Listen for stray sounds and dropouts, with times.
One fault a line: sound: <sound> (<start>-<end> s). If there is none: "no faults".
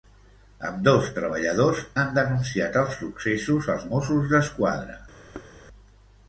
sound: thud (5.3-5.6 s)